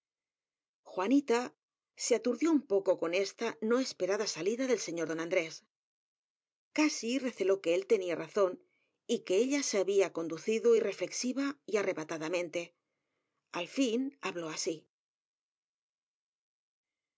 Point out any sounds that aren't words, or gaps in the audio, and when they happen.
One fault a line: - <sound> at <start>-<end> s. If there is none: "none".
none